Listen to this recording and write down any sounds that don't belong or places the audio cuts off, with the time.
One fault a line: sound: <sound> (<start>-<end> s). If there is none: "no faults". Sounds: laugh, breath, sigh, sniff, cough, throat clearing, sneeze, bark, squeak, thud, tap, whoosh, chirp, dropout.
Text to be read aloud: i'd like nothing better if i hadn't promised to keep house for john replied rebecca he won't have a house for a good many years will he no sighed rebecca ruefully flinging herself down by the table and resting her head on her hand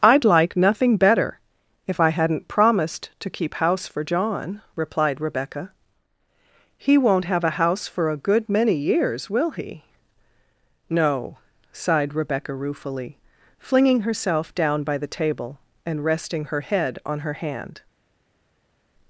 no faults